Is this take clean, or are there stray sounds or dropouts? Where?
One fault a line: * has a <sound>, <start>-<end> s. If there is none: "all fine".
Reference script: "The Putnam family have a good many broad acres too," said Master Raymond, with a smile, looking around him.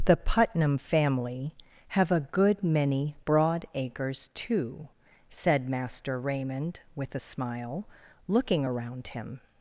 all fine